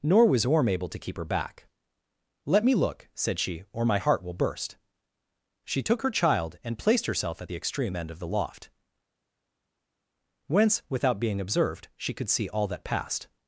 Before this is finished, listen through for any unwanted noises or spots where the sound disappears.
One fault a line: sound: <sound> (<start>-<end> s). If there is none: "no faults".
no faults